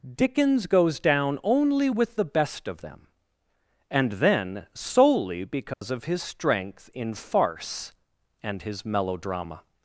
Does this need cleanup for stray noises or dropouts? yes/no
yes